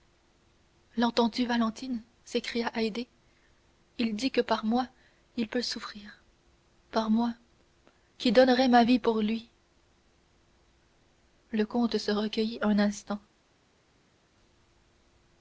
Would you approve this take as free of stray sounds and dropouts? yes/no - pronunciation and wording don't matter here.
yes